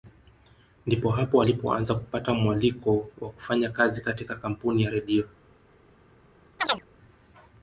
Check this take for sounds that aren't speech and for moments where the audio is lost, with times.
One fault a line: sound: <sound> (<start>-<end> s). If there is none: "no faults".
sound: chirp (6.6-6.8 s)